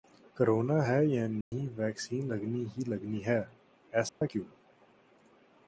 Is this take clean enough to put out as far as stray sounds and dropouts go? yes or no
no